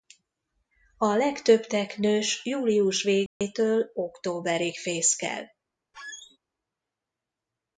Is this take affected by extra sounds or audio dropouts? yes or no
yes